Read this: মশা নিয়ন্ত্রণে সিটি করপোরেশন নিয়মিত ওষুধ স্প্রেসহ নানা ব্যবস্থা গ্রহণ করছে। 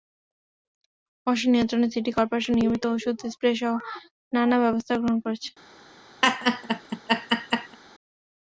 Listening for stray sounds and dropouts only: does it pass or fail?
fail